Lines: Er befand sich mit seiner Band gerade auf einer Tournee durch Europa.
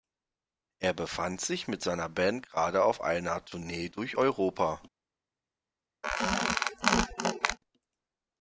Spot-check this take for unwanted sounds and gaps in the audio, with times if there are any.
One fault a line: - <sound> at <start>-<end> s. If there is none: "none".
- squeak at 6.0-7.6 s